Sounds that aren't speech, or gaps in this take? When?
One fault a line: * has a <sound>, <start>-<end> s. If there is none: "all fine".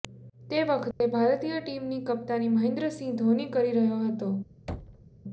* has a dropout, 0.9-1.0 s
* has a thud, 4.7-5.1 s